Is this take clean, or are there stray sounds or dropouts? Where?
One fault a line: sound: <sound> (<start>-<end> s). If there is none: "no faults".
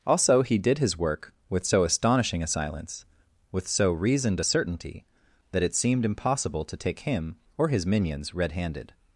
no faults